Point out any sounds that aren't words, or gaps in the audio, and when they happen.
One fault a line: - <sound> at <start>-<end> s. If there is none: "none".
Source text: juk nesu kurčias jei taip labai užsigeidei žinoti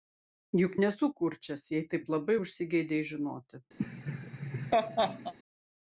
- laugh at 3.8-5.3 s